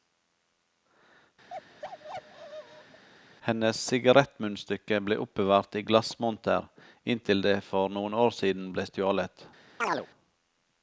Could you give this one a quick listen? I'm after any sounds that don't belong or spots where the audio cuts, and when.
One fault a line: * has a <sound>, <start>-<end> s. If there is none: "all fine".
* has a bark, 1.5-3.0 s
* has a chirp, 9.8-10.1 s